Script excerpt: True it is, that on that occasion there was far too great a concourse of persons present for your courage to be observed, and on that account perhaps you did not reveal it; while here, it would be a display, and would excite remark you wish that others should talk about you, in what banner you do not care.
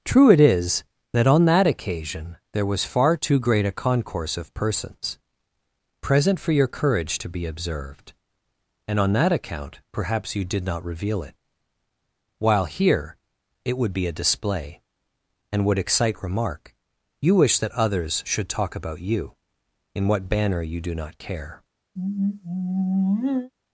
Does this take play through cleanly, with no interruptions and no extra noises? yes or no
no